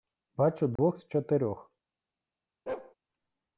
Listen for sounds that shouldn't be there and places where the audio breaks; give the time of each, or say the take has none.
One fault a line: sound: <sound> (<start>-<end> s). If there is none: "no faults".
sound: dropout (0.8-0.8 s)
sound: bark (2.7-2.9 s)